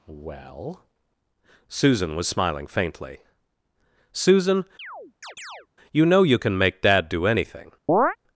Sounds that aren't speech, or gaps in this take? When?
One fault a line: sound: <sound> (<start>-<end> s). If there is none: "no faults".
sound: chirp (4.8-5.7 s)
sound: chirp (7.9-8.2 s)